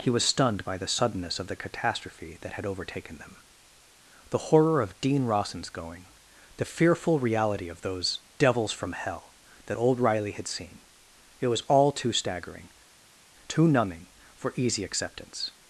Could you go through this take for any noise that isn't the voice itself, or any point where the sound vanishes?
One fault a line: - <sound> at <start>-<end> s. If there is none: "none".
none